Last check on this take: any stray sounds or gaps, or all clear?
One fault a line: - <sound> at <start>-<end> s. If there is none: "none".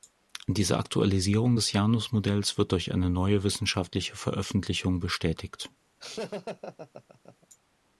- laugh at 6.0-7.5 s